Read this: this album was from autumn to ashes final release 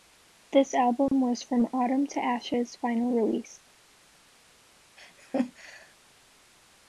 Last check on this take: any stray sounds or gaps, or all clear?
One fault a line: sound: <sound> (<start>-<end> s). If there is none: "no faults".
sound: laugh (5.0-5.9 s)